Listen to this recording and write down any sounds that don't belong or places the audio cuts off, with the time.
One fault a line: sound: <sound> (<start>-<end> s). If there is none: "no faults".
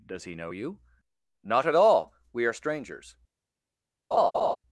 sound: laugh (4.1-4.6 s)